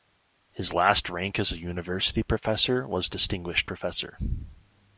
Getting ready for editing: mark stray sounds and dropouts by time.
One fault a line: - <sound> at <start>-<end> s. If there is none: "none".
none